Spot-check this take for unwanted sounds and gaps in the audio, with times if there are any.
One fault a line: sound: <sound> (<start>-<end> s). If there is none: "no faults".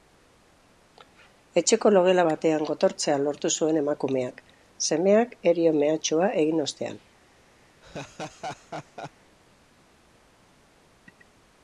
sound: laugh (7.8-9.1 s)